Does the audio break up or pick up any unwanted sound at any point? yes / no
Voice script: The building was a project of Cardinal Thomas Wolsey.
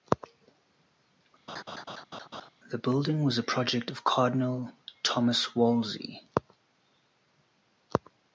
yes